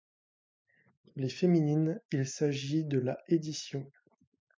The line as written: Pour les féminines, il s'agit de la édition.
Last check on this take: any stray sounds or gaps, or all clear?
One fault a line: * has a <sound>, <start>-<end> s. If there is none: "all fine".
all fine